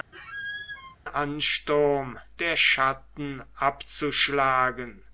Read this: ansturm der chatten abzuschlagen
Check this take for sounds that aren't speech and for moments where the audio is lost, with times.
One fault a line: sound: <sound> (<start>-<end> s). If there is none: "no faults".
sound: squeak (0.1-1.0 s)